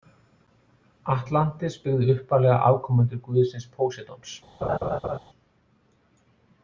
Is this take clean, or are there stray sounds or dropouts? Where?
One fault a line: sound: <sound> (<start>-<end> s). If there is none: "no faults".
sound: laugh (4.6-5.2 s)